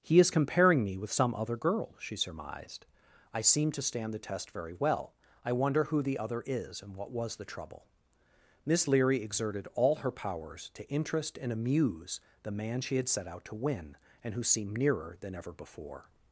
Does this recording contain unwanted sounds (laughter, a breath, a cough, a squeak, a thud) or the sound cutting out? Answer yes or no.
no